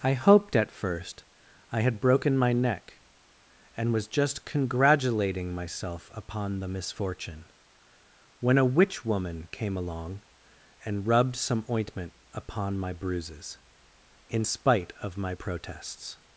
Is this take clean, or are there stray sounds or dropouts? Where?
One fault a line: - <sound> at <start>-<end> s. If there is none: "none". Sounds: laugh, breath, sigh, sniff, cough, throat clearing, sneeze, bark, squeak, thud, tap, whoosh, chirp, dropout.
none